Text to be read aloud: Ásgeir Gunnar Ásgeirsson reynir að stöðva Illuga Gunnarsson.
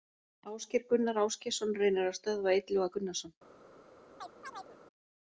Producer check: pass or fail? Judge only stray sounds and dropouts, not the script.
fail